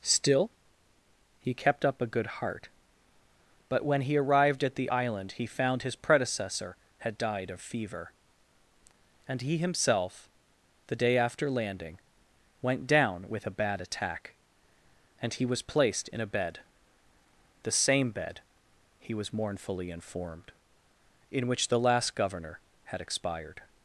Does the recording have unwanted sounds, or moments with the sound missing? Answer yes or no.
no